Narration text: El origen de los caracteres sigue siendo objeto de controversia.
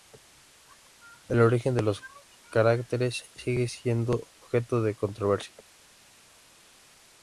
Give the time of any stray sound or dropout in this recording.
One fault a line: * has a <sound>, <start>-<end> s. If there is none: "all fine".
all fine